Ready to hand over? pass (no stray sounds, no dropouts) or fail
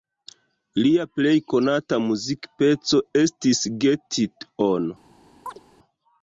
fail